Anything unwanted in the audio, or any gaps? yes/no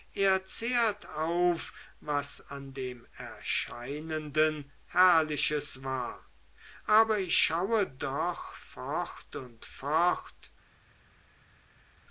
no